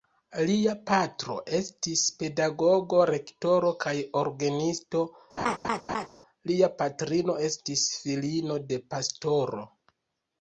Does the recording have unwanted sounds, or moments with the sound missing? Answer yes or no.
yes